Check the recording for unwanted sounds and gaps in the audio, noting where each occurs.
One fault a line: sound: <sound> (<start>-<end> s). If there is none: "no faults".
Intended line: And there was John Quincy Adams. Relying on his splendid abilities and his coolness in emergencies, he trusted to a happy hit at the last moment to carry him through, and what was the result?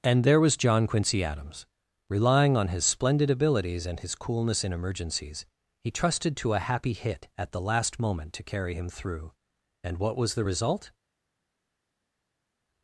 no faults